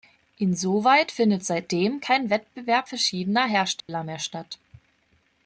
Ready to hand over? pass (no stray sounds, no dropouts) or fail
fail